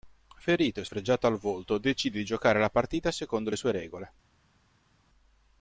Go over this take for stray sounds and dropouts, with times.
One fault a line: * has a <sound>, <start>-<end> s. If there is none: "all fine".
all fine